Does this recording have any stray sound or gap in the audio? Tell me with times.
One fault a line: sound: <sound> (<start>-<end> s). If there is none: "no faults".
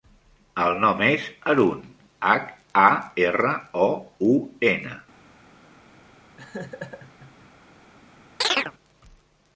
sound: laugh (6.4-7.5 s)
sound: chirp (8.4-8.7 s)